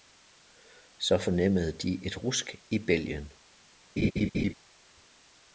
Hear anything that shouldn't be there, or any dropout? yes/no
yes